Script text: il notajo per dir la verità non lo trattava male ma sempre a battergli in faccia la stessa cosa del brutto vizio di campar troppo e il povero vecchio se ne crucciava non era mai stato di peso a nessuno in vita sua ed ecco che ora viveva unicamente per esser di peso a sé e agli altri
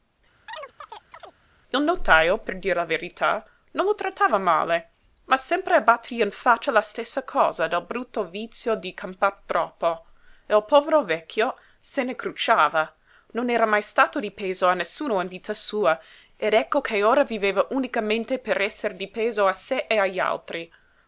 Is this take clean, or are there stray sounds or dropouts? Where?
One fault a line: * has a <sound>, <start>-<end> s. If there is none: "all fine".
* has a chirp, 0.5-1.4 s